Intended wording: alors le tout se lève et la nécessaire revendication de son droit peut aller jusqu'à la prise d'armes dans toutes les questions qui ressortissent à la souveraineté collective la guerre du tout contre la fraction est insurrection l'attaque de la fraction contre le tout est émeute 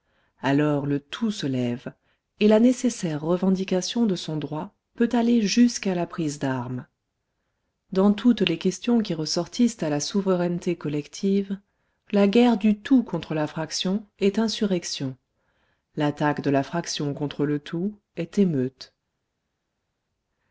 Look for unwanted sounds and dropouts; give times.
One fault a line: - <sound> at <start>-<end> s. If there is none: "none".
none